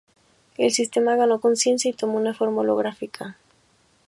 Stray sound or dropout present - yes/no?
no